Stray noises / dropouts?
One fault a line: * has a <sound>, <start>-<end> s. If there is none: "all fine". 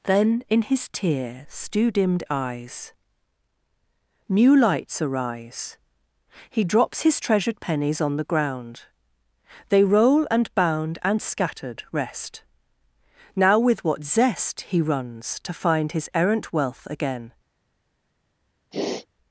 * has a sniff, 18.7-19.1 s